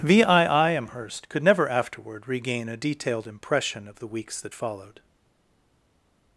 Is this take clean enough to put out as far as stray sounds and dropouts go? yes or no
yes